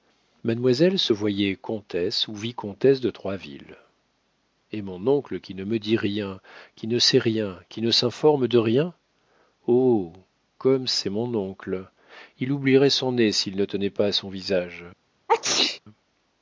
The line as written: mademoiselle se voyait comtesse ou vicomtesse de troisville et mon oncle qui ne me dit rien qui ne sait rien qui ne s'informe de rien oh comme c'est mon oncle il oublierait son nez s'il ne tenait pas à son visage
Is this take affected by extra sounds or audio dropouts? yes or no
yes